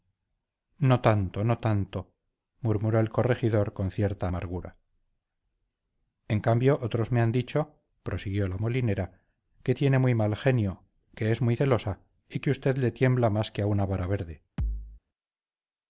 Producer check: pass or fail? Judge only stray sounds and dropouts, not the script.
fail